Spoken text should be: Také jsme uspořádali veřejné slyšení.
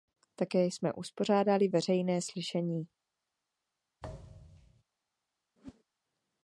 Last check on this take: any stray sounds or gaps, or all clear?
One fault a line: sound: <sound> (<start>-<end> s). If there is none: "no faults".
sound: thud (4.0-4.8 s)
sound: whoosh (5.6-5.8 s)